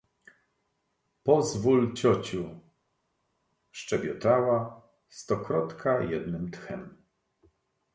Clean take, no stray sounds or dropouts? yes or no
yes